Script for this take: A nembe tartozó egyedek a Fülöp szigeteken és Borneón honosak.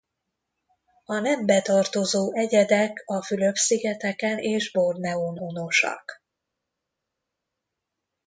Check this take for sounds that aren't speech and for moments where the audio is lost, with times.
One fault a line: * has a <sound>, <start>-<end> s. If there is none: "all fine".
all fine